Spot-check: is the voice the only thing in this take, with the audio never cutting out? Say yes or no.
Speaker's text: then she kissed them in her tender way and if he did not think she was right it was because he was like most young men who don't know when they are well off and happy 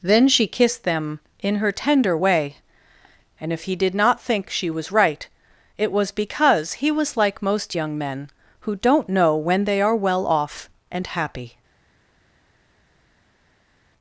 yes